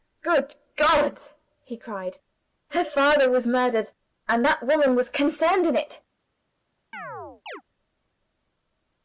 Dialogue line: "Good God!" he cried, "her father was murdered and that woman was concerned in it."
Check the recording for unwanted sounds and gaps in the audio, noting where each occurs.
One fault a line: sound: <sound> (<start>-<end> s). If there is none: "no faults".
sound: chirp (6.9-7.6 s)